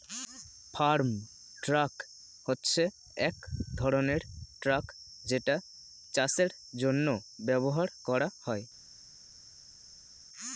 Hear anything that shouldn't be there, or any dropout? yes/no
no